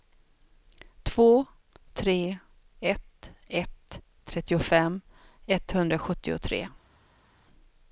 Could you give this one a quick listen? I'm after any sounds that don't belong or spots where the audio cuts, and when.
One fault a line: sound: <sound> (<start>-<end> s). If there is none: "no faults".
no faults